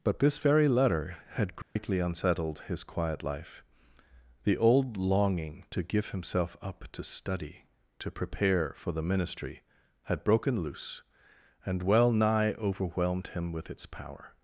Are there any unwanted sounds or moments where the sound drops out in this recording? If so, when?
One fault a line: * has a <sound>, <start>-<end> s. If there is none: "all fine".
* has a dropout, 1.6-1.8 s